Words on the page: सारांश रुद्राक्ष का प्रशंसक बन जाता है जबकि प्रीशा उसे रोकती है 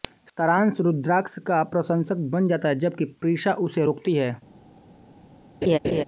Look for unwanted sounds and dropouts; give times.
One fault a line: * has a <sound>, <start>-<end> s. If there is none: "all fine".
* has a laugh, 5.6-6.0 s